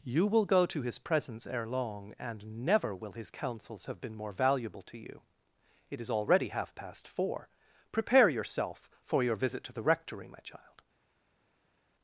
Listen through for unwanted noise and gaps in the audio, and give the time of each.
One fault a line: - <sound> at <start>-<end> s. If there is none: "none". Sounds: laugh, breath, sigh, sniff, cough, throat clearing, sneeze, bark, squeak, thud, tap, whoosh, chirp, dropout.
none